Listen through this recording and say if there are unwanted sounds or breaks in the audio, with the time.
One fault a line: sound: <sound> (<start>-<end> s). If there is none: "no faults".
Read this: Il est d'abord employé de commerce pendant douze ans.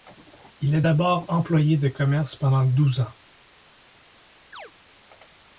sound: chirp (4.5-4.7 s)